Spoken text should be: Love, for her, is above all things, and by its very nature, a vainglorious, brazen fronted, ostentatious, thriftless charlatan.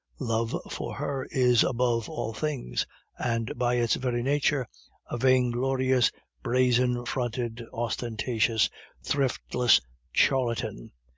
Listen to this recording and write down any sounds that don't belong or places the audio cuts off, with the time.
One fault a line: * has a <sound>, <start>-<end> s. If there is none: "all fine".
all fine